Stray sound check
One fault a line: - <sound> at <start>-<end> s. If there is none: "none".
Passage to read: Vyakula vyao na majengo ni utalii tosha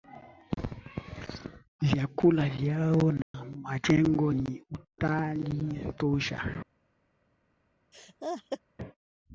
- dropout at 3.2-3.3 s
- laugh at 7.9-8.6 s